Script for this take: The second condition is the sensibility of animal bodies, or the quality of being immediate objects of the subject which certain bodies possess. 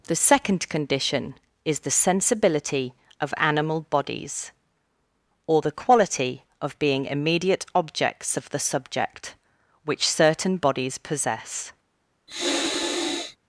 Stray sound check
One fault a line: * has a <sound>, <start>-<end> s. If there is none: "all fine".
* has a sniff, 12.3-13.4 s